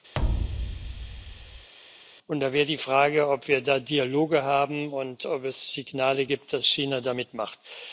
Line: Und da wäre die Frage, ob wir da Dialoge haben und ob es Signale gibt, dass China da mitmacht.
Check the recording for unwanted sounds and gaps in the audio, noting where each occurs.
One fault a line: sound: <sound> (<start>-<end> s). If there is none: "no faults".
sound: thud (0.1-1.7 s)